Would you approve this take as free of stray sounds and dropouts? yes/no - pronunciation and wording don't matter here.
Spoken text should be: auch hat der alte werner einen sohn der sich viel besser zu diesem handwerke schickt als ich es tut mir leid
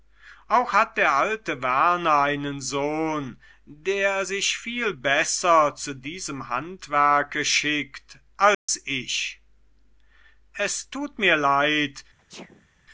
no